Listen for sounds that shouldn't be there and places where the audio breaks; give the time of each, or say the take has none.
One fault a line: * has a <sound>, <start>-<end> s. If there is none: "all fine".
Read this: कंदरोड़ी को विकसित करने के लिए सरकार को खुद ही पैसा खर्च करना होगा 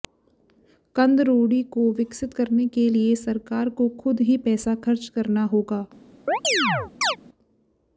* has a chirp, 6.3-7.2 s